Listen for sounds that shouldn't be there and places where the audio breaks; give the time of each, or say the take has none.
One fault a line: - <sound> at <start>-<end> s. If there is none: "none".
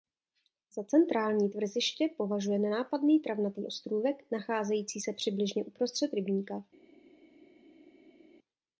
none